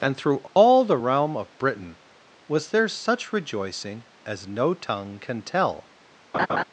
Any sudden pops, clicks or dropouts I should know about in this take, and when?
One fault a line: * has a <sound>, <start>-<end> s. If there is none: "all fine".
* has a dropout, 0.5-0.6 s
* has a laugh, 6.3-6.6 s